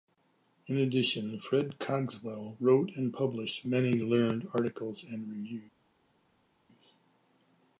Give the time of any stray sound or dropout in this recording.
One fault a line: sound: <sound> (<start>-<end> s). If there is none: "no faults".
no faults